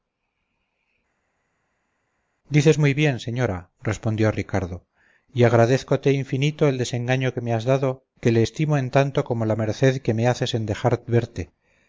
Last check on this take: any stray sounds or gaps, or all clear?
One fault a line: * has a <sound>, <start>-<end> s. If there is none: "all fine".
all fine